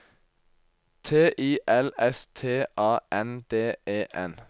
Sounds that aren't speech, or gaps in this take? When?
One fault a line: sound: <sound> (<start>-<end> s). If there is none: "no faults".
no faults